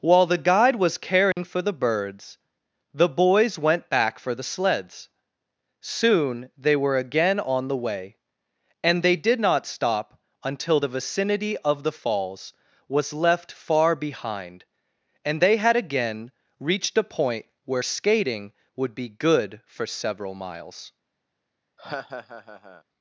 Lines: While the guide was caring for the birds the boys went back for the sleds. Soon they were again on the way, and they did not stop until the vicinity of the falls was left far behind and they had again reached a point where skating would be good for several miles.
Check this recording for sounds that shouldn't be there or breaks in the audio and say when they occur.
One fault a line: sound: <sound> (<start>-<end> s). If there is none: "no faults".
sound: dropout (1.3-1.4 s)
sound: laugh (21.8-22.8 s)